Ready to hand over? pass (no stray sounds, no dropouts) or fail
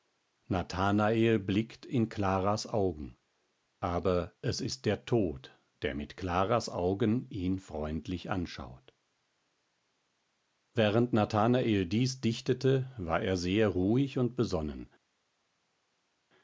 pass